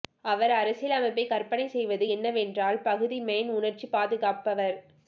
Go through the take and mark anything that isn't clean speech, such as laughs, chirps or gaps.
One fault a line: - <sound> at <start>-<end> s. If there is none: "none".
none